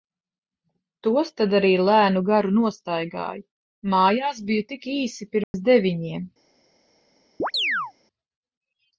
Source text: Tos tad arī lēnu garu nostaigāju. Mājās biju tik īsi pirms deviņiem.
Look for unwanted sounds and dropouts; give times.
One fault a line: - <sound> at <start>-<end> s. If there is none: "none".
- dropout at 5.4-5.5 s
- chirp at 7.4-7.9 s